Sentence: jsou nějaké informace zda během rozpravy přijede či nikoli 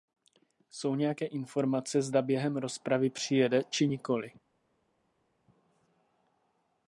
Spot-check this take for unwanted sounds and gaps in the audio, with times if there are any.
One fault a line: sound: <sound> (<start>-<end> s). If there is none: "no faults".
no faults